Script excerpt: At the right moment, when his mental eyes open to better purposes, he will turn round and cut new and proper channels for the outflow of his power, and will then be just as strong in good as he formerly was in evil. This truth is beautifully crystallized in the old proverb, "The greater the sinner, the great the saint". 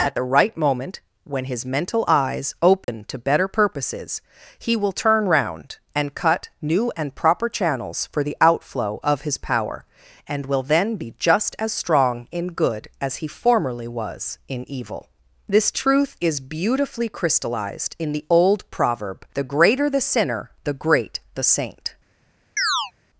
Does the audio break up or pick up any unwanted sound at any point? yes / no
yes